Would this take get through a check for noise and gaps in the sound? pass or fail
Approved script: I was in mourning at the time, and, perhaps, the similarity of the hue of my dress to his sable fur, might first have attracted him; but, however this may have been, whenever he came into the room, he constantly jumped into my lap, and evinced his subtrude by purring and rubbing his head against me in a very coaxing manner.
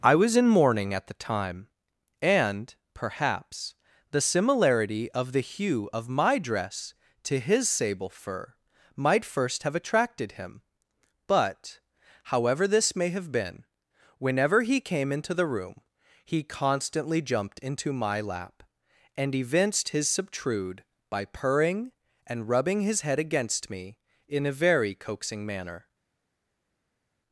pass